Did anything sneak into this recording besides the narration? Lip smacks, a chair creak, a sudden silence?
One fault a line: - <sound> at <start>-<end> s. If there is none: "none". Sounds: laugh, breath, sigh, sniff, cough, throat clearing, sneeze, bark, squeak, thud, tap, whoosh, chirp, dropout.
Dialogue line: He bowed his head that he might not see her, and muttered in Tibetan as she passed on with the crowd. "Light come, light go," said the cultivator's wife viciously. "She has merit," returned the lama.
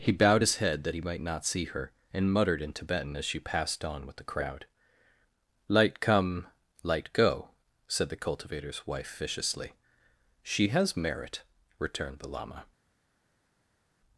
none